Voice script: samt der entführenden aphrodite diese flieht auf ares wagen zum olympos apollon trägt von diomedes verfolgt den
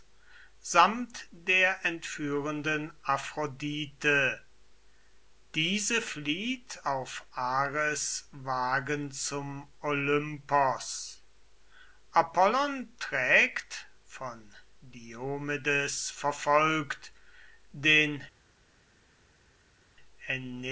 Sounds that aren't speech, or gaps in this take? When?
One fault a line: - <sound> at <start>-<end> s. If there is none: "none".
none